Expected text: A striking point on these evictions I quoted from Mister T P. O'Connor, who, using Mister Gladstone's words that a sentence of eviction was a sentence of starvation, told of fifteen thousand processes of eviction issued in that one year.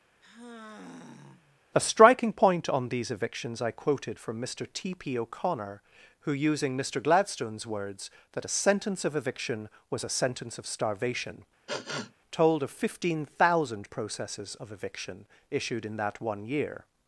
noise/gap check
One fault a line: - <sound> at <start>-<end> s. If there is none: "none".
- sigh at 0.2-1.6 s
- sniff at 11.7-12.1 s